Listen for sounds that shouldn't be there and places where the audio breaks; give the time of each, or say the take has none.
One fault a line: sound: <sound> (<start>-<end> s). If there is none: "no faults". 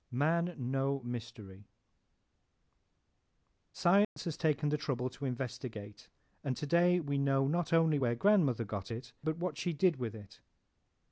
sound: dropout (4.0-4.2 s)